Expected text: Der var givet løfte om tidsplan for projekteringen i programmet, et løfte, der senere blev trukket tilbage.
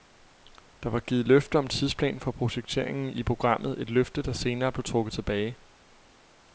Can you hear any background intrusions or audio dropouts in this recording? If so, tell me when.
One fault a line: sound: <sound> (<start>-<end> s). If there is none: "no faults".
no faults